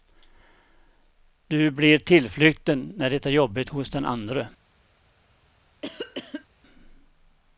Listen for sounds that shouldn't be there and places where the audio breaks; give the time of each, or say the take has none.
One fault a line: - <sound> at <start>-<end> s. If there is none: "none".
- cough at 5.8-6.5 s